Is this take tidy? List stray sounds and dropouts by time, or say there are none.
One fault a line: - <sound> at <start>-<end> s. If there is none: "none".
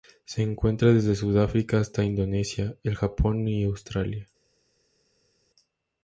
none